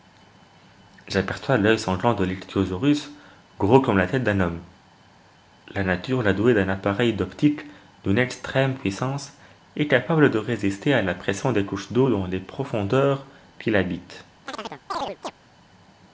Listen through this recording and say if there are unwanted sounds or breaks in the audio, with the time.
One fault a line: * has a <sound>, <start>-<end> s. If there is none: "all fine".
* has a chirp, 14.5-15.3 s